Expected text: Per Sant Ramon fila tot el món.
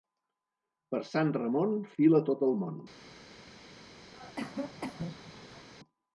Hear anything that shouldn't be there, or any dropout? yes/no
yes